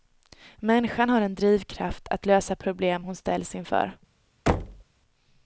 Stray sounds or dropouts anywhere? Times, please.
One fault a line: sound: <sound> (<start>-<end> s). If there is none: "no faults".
sound: thud (4.5-4.8 s)